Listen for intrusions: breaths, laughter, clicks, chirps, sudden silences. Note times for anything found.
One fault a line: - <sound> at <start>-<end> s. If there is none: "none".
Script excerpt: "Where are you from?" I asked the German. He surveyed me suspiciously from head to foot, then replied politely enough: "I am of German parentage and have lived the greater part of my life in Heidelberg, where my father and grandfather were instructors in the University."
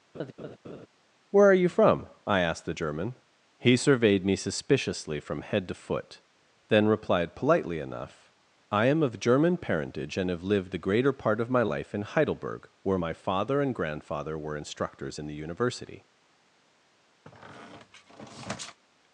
- laugh at 0.1-0.9 s
- squeak at 17.2-18.8 s